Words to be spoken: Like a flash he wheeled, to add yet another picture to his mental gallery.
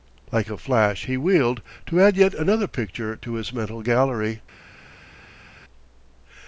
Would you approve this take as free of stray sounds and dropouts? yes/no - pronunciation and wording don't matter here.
yes